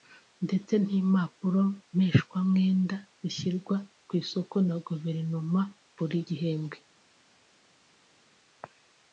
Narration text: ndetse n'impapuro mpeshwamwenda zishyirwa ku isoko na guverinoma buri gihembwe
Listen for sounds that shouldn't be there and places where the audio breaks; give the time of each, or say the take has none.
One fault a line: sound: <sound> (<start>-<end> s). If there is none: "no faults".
no faults